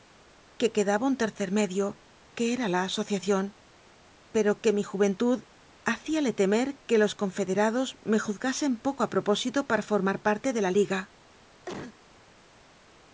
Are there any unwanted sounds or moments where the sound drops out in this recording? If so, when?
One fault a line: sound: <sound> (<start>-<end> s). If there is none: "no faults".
sound: cough (11.7-12.0 s)